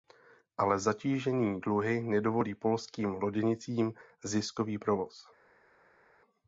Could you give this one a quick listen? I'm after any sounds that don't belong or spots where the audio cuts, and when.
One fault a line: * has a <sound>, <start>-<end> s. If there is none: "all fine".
all fine